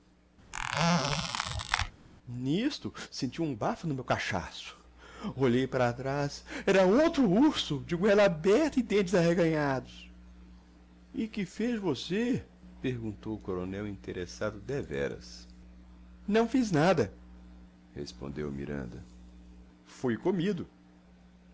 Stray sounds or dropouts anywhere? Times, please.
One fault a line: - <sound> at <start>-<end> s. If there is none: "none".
- squeak at 0.5-1.9 s